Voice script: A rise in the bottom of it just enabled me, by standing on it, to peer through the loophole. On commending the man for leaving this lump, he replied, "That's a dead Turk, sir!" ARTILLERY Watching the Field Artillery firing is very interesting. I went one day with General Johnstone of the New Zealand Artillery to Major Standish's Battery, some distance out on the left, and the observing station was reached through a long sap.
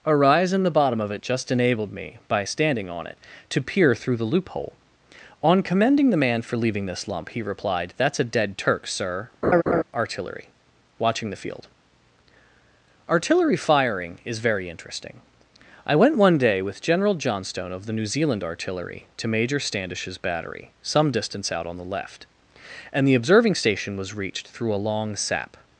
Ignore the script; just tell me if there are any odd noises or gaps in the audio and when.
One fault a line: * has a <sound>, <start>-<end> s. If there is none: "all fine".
* has a laugh, 9.4-9.8 s